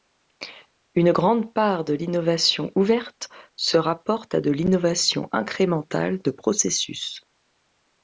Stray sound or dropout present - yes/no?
no